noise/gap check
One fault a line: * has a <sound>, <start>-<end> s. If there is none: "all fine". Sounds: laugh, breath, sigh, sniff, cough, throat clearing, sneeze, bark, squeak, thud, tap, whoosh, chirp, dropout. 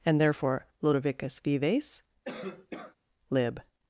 * has a cough, 2.2-3.0 s